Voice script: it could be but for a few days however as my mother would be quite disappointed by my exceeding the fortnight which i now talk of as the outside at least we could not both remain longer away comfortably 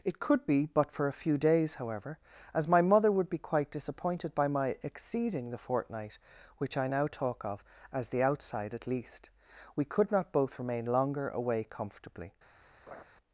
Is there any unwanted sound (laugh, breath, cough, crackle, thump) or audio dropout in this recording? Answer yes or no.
yes